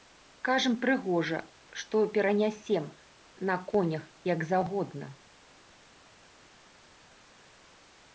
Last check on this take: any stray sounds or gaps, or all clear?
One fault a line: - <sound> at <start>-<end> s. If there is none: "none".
none